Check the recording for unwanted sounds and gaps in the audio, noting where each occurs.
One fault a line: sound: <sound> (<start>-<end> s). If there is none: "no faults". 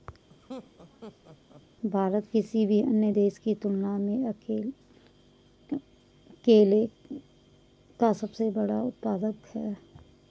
sound: laugh (0.3-1.6 s)